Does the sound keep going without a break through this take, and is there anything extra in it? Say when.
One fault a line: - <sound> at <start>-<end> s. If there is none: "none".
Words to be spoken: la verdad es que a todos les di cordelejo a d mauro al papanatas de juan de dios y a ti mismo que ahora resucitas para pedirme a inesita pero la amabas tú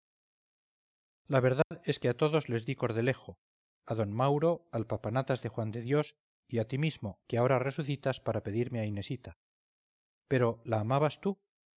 - dropout at 1.6-1.7 s